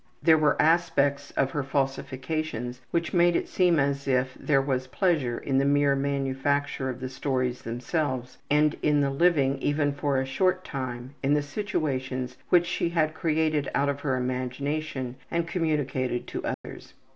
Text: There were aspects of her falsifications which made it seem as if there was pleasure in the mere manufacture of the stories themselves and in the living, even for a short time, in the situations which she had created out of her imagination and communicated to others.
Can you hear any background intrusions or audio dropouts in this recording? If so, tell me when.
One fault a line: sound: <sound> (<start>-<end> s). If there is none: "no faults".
sound: dropout (16.5-16.6 s)